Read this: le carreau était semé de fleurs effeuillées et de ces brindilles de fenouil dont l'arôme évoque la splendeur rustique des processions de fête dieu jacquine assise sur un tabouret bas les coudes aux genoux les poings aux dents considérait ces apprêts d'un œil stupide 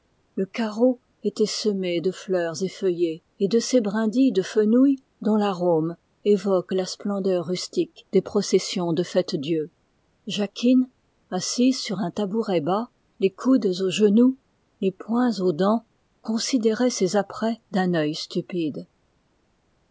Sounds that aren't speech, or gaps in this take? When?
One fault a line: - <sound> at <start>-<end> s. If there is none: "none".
none